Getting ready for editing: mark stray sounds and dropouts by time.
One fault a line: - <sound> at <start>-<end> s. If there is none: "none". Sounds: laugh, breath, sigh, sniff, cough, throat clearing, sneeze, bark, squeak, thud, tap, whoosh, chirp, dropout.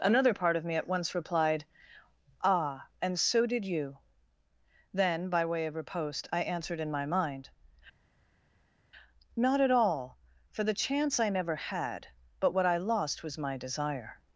none